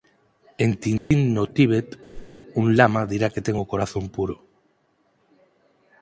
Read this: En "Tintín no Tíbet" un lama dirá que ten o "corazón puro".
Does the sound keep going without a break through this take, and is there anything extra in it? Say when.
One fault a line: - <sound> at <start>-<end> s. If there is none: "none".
- dropout at 1.0-1.1 s
- whoosh at 2.1-2.4 s